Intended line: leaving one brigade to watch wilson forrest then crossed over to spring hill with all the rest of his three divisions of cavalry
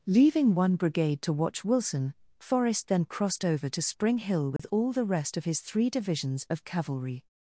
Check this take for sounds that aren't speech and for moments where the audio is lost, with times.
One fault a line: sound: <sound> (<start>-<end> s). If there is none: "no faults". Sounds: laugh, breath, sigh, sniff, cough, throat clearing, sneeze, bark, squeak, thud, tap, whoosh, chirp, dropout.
sound: dropout (4.6-4.6 s)